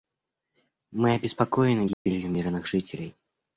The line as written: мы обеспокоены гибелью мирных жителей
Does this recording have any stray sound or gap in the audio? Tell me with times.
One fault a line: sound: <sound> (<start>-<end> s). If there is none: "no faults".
sound: dropout (1.9-2.1 s)